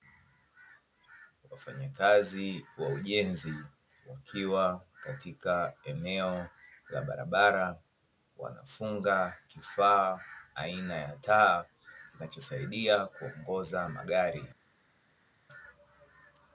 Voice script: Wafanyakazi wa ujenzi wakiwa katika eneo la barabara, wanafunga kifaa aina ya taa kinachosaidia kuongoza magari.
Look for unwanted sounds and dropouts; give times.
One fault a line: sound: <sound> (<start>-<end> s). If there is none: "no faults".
no faults